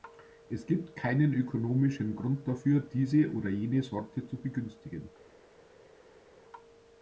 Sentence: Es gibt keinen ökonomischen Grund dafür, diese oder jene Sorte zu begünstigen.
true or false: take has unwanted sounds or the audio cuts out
false